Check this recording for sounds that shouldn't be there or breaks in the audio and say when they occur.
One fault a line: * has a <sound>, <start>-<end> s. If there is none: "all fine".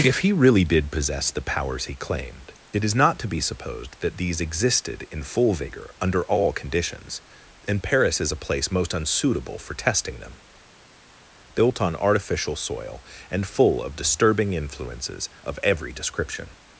all fine